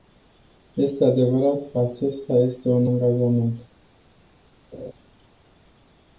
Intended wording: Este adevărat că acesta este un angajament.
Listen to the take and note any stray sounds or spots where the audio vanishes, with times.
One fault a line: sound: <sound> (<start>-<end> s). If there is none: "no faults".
sound: laugh (4.7-4.9 s)